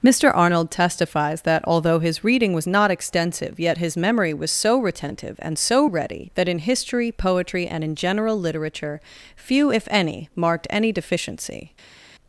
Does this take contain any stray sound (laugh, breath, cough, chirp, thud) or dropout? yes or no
no